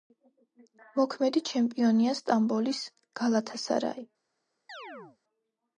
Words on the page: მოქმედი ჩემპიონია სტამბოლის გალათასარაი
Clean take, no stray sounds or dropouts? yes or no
no